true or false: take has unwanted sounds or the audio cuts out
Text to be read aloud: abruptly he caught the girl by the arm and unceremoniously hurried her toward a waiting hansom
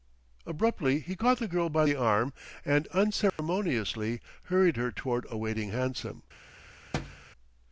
true